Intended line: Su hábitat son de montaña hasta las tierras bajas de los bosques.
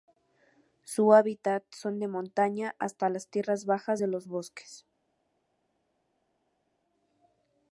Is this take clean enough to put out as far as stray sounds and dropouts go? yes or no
yes